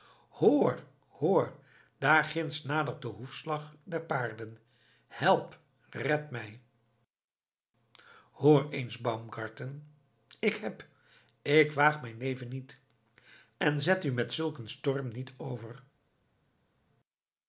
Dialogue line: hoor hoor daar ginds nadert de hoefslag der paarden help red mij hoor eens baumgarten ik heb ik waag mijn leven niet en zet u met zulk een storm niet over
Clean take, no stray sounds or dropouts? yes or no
yes